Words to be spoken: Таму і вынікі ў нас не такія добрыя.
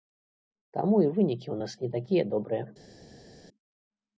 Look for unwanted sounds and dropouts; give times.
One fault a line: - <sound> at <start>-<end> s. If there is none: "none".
none